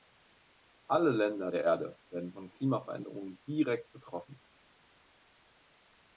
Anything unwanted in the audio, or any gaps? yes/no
no